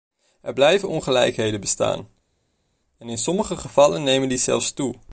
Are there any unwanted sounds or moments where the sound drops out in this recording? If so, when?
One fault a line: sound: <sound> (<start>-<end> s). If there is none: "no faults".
no faults